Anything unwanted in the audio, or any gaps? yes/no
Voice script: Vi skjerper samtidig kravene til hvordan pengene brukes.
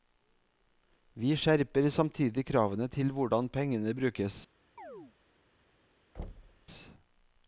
yes